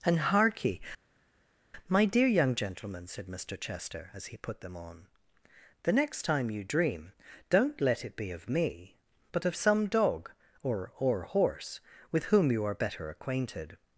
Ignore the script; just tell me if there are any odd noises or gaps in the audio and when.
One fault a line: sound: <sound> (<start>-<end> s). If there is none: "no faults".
no faults